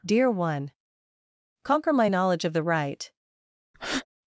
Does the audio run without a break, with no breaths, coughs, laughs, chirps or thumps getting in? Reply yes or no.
no